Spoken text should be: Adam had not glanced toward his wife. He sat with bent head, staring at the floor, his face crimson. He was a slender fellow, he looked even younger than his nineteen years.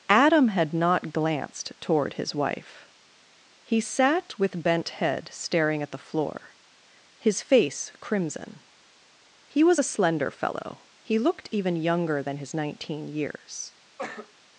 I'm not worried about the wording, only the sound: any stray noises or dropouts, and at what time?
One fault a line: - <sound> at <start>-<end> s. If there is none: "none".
- cough at 14.0-14.3 s